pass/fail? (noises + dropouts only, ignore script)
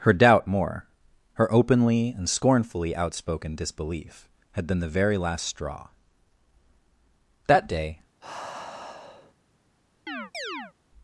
fail